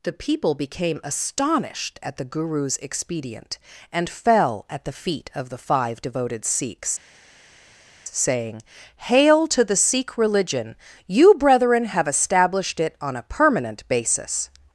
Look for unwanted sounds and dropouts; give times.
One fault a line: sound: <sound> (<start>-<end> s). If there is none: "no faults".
no faults